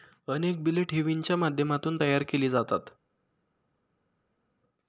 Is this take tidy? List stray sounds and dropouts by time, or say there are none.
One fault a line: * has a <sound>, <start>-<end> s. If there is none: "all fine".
all fine